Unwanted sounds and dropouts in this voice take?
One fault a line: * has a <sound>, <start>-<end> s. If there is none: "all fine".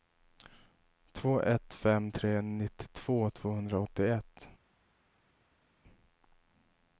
all fine